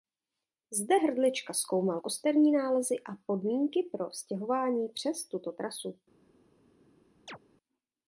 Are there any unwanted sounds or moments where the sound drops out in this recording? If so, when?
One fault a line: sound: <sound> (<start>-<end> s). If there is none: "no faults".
sound: chirp (7.3-7.4 s)